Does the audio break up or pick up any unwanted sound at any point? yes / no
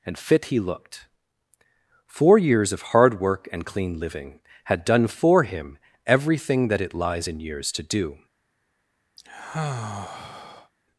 yes